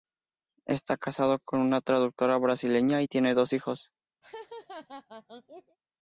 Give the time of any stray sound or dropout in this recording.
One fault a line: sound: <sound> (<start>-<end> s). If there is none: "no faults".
sound: laugh (4.2-5.8 s)